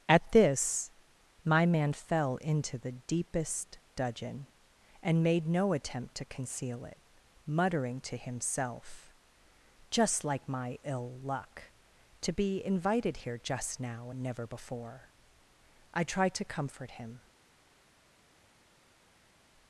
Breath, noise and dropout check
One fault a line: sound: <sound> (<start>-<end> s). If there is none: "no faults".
no faults